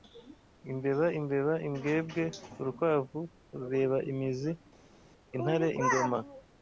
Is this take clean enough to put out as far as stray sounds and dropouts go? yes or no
yes